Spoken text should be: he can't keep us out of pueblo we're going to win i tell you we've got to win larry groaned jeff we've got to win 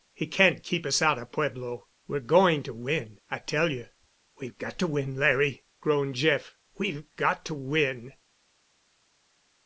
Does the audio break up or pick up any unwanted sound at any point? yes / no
no